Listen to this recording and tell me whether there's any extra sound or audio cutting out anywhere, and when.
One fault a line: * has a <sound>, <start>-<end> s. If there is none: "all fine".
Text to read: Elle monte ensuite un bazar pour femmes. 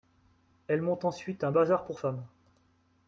all fine